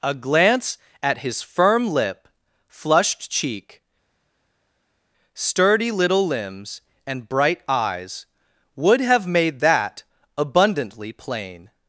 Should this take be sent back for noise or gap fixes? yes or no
no